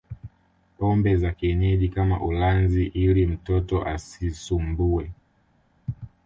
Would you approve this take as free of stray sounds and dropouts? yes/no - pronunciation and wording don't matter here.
yes